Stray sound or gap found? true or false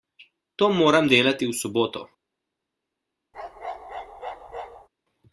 true